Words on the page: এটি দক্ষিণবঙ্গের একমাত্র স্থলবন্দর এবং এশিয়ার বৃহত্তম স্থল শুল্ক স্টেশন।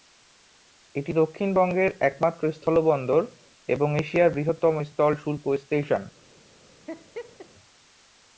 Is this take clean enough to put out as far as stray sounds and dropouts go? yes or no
no